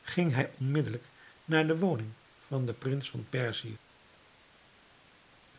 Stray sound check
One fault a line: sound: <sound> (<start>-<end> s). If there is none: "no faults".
no faults